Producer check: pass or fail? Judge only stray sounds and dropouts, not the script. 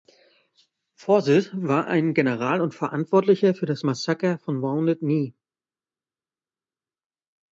pass